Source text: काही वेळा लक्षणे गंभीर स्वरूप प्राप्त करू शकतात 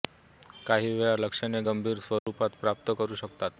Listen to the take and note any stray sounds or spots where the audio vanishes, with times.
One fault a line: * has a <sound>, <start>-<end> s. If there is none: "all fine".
* has a dropout, 2.2-2.3 s